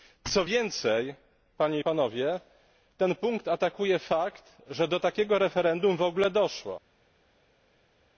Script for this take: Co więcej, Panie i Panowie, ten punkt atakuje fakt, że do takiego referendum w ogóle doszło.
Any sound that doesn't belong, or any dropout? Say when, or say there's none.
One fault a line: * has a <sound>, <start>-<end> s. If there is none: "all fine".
all fine